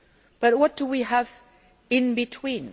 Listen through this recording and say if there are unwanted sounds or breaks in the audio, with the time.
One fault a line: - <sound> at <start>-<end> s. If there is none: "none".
none